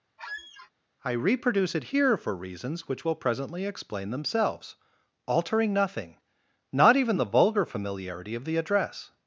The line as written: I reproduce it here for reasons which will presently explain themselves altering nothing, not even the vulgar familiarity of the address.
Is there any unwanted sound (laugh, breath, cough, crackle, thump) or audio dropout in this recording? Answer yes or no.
yes